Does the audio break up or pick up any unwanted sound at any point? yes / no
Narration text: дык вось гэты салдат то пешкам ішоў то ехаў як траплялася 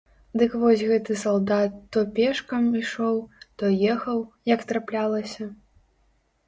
no